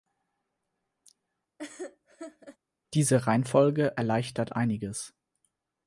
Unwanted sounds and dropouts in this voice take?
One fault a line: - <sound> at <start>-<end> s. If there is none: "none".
- laugh at 1.6-2.6 s